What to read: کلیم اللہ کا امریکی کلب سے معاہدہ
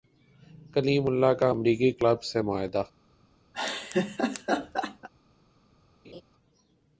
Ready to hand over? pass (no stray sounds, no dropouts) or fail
fail